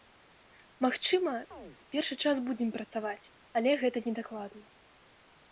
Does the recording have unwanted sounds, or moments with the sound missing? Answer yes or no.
yes